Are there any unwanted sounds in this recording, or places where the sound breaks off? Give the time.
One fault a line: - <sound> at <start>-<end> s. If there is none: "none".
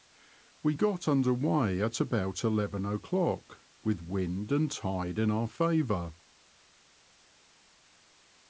none